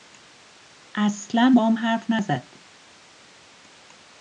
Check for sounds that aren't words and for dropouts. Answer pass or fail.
pass